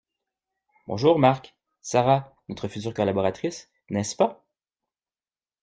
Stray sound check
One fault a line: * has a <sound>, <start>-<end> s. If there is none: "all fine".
all fine